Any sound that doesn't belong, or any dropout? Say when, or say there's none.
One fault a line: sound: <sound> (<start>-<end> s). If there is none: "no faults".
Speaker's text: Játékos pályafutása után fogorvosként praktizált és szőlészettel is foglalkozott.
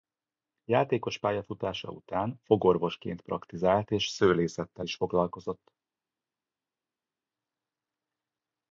no faults